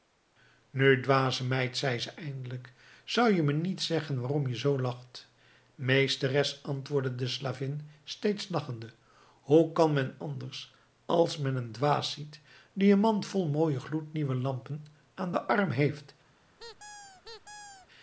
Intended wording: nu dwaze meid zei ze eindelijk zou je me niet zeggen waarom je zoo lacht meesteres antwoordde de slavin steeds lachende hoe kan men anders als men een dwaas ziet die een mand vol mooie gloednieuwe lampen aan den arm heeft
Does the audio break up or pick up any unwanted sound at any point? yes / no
yes